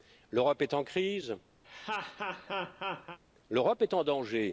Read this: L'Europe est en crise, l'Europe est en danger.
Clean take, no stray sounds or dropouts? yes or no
no